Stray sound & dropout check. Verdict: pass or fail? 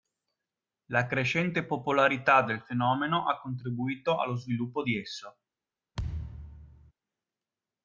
fail